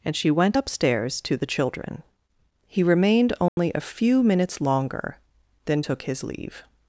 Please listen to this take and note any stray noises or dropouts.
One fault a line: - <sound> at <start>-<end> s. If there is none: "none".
- dropout at 3.5-3.6 s